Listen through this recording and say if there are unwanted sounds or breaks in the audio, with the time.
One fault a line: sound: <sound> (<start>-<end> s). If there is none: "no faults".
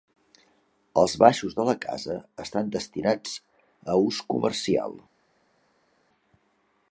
no faults